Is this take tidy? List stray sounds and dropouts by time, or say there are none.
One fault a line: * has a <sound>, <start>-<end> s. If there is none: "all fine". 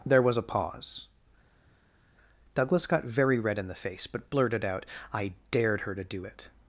all fine